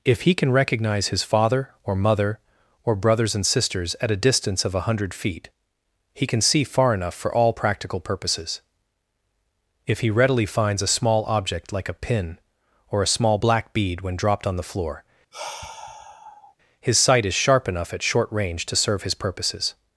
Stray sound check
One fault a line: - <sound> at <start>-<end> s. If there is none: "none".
- sigh at 15.3-16.6 s